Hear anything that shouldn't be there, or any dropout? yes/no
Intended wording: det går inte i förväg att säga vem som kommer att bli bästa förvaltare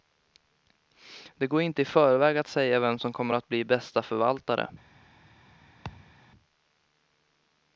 yes